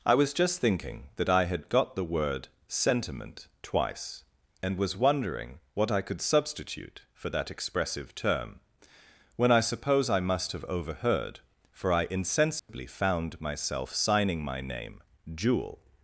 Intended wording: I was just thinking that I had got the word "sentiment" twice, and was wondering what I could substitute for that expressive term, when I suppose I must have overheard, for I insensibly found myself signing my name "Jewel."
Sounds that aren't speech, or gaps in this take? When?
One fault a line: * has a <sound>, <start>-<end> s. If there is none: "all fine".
* has a dropout, 12.6-12.7 s